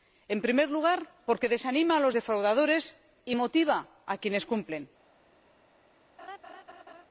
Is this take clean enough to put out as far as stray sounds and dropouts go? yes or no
no